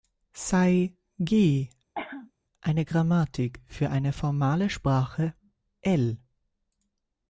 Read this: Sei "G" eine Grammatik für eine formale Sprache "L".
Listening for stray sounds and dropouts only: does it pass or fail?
fail